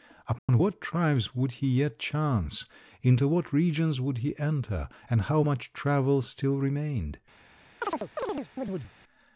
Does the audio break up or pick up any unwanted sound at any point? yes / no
yes